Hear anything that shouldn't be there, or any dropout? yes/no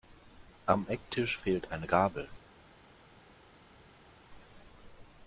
no